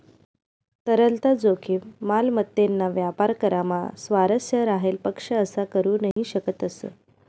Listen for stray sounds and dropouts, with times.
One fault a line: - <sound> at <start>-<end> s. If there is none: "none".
- dropout at 6.1-6.2 s